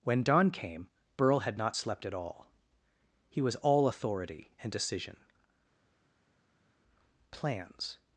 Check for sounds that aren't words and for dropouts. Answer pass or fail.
pass